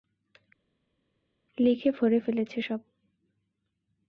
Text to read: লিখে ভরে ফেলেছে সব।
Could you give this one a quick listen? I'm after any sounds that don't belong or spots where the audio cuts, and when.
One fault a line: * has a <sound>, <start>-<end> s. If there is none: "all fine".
all fine